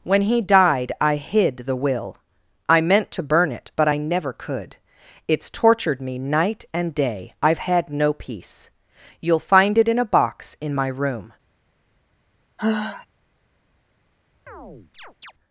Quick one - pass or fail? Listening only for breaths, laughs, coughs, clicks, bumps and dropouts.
fail